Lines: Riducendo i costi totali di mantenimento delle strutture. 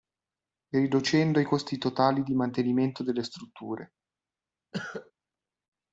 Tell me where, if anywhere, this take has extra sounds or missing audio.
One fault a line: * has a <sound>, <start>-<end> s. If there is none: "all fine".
* has a cough, 4.7-5.1 s